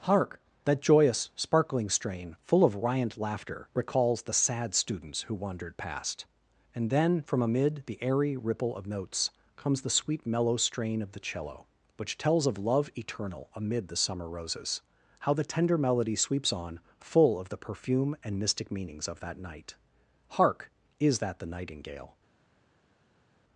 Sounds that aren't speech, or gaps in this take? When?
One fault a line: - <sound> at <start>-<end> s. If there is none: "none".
none